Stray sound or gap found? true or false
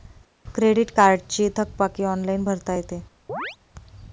true